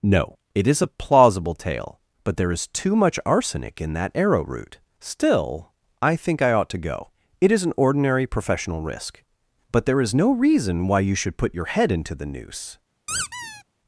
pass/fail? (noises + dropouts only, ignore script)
fail